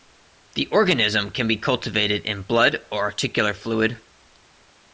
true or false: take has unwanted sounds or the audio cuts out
false